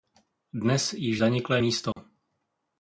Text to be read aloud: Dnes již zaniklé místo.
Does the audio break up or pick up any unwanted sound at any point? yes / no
yes